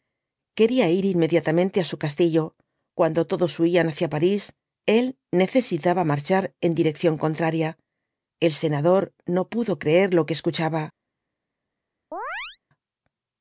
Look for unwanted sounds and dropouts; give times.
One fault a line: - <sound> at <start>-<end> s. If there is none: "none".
- chirp at 12.1-12.6 s